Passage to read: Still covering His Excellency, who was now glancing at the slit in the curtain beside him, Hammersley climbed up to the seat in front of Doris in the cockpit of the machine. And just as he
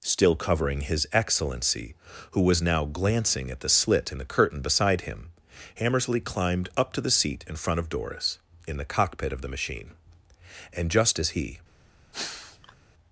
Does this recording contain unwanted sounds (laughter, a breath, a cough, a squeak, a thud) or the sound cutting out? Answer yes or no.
yes